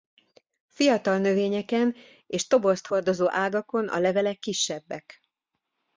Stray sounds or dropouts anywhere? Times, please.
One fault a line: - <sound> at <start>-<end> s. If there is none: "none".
none